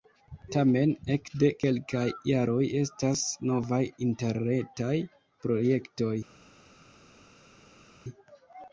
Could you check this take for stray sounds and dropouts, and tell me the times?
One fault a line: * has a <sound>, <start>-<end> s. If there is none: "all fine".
all fine